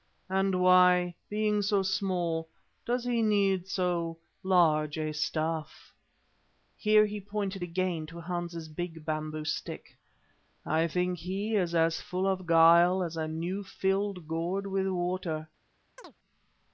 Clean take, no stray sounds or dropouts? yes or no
no